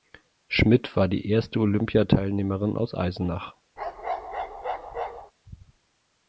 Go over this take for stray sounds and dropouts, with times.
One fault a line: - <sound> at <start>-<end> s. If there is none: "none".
- bark at 3.8-5.3 s